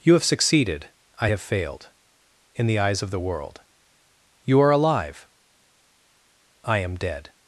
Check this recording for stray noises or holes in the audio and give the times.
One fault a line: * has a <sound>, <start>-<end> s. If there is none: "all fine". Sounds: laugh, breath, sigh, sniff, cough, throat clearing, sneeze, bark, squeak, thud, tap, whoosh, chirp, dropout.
all fine